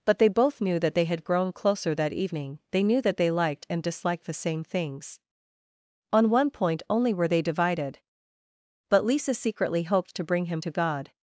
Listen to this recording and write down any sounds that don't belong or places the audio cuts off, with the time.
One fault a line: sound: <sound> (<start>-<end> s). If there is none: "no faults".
no faults